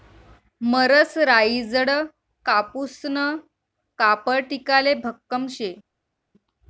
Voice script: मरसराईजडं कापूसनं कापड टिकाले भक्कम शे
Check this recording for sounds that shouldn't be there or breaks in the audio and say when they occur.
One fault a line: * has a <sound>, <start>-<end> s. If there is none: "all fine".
all fine